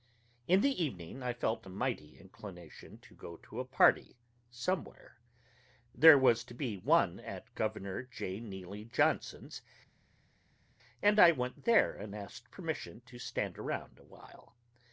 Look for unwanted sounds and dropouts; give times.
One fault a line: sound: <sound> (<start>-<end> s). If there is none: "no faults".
no faults